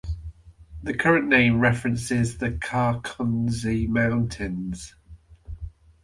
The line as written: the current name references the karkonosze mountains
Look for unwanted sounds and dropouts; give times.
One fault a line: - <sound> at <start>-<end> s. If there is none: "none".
none